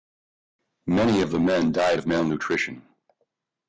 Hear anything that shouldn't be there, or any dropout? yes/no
no